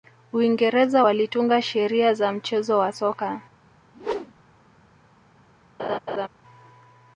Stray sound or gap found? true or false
true